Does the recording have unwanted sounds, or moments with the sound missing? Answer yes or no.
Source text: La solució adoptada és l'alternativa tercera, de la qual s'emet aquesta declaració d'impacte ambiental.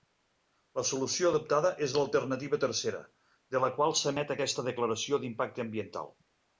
no